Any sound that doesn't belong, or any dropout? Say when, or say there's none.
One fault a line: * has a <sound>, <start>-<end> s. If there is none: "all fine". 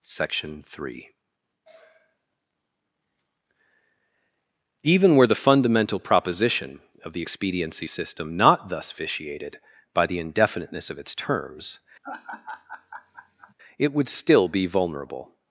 * has a laugh, 12.0-13.5 s